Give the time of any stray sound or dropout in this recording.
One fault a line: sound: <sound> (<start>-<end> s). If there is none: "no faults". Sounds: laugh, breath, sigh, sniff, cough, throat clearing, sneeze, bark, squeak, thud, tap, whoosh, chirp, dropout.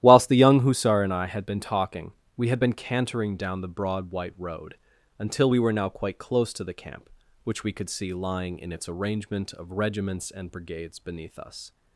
no faults